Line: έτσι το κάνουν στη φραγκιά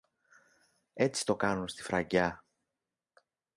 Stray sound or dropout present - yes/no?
no